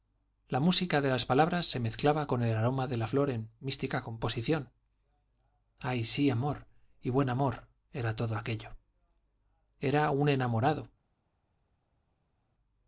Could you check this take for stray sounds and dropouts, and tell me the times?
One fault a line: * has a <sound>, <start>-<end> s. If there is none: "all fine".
all fine